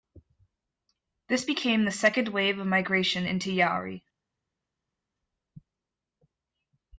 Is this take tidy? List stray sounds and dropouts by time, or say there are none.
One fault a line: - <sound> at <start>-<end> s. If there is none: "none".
none